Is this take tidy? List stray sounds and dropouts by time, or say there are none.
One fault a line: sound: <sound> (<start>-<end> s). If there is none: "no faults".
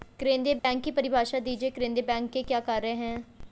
sound: dropout (0.6-0.6 s)